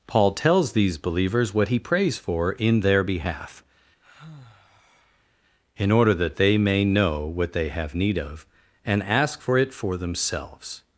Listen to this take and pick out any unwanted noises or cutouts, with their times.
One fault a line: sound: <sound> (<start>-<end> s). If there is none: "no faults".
sound: sigh (4.0-5.3 s)